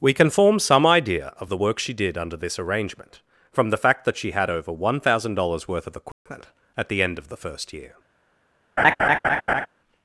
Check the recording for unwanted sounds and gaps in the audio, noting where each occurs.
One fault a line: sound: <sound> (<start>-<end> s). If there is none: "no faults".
sound: dropout (6.1-6.3 s)
sound: laugh (8.8-9.7 s)